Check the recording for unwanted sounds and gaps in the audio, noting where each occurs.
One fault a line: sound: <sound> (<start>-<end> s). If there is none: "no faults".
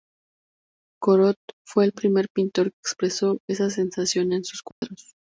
sound: dropout (4.7-4.8 s)